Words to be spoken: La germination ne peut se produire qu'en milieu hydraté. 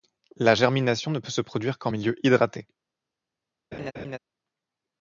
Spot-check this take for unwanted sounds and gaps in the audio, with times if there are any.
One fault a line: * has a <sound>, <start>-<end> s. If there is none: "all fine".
* has a laugh, 3.7-4.2 s